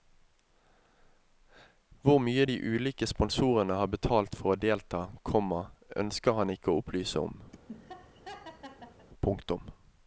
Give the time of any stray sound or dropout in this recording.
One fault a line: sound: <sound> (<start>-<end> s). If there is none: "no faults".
sound: laugh (7.5-9.1 s)